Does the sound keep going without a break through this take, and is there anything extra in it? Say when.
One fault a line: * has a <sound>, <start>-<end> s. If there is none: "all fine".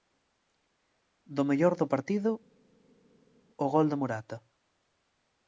all fine